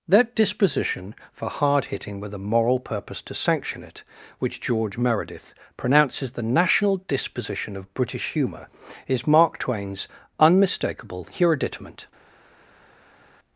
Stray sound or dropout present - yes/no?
no